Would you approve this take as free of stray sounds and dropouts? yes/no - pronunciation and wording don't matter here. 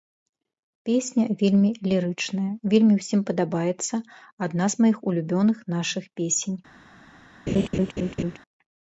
no